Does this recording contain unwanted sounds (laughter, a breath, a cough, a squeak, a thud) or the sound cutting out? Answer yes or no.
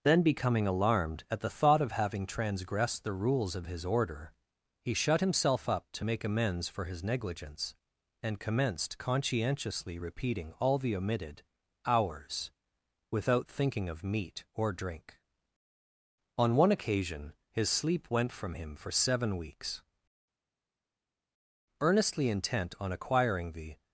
no